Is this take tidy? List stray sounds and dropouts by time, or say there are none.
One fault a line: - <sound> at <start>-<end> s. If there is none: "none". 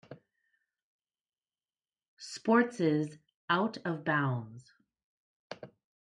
none